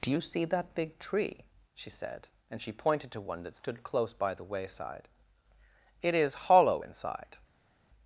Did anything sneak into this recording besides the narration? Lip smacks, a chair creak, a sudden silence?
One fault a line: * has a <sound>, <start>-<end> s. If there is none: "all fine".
all fine